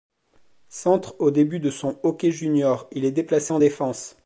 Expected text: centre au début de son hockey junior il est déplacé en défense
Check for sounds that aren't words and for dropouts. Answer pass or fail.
pass